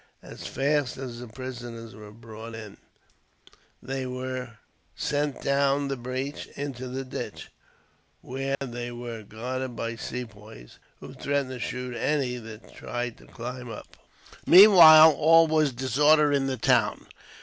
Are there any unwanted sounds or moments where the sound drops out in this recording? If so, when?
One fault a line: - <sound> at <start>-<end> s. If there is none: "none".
- dropout at 8.6-8.6 s